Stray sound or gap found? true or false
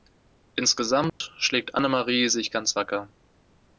true